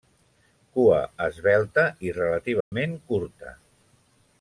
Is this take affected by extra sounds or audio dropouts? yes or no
yes